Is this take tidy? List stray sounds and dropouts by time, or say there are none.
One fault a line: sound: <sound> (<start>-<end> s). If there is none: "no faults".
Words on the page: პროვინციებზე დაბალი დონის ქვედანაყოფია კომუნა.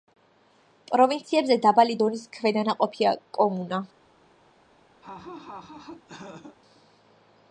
sound: laugh (5.0-6.6 s)